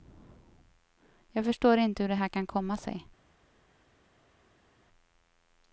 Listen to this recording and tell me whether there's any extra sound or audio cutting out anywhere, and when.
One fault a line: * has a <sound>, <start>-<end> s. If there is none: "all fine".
all fine